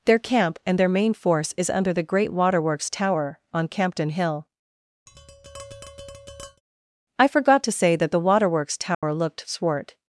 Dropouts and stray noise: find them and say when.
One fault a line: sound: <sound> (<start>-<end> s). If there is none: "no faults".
sound: tap (5.1-6.6 s)
sound: dropout (8.9-9.0 s)